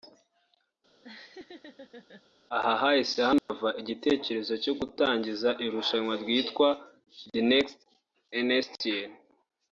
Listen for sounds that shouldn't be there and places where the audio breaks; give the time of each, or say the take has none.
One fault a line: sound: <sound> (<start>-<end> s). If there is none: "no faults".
sound: laugh (1.0-2.2 s)
sound: dropout (3.4-3.5 s)